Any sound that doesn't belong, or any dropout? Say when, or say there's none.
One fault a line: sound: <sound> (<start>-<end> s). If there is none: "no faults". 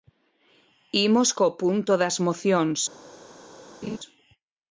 sound: laugh (3.8-4.0 s)